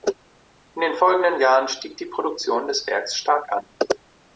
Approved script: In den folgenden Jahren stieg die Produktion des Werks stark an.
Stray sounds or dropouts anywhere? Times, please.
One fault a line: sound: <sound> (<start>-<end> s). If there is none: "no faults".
no faults